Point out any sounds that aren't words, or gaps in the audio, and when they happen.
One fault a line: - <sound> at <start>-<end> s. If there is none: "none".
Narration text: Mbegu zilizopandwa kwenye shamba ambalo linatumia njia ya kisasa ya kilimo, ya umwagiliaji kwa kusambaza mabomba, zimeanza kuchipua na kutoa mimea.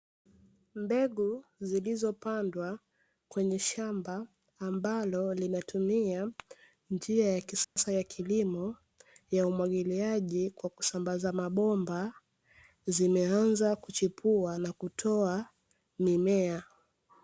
- dropout at 7.6-7.8 s